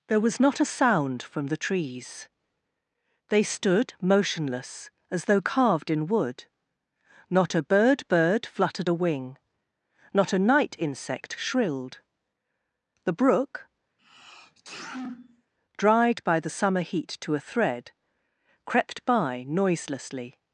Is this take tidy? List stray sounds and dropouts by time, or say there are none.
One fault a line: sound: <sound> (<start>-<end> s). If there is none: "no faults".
sound: sneeze (14.0-15.5 s)